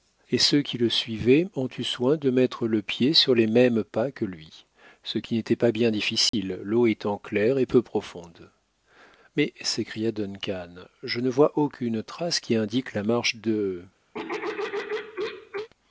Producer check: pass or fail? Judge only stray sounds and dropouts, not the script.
fail